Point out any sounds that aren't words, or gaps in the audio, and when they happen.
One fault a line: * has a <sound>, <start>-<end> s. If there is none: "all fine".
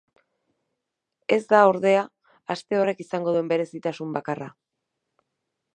all fine